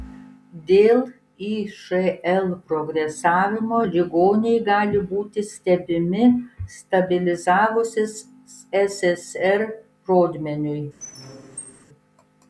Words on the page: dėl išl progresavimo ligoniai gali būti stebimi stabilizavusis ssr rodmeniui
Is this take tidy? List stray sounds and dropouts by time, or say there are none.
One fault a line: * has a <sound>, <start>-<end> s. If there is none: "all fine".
* has a squeak, 11.0-11.8 s